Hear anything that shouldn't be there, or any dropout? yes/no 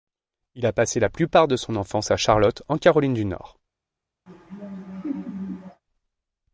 yes